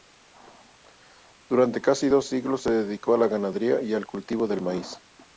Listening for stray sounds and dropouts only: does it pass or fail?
pass